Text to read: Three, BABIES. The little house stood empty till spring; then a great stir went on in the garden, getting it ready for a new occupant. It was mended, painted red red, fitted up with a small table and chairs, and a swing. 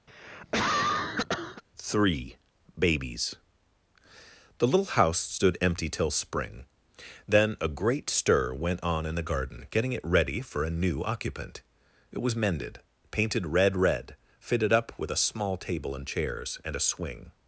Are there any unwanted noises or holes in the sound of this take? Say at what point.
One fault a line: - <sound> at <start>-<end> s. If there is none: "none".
- cough at 0.1-1.6 s